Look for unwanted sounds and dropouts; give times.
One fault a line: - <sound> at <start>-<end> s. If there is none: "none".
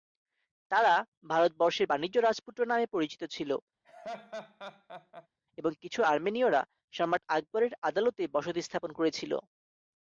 - laugh at 3.8-5.3 s